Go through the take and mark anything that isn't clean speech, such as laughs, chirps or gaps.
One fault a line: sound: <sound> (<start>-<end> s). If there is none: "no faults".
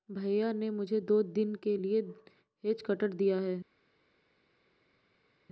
no faults